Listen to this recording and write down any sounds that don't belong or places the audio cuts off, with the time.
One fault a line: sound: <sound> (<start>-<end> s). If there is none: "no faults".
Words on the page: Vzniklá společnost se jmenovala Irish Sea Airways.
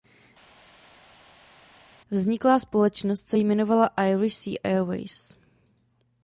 no faults